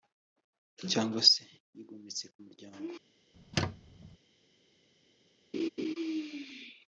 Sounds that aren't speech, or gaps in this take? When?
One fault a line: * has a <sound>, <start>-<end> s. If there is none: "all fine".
* has a squeak, 3.3-4.2 s
* has a laugh, 5.5-5.9 s